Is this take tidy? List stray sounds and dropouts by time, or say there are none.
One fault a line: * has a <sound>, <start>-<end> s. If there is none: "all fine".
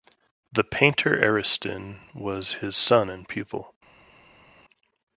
all fine